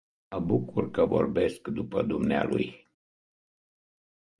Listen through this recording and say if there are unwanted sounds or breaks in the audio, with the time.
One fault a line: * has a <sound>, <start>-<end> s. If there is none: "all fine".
all fine